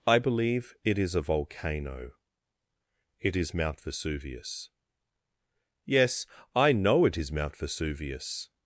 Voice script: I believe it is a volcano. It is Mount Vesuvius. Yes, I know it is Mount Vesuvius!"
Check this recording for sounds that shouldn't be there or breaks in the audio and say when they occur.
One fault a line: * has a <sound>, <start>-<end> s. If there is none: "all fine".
all fine